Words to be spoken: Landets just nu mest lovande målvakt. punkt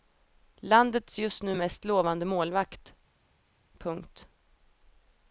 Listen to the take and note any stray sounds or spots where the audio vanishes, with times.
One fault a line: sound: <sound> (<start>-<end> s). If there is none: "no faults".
no faults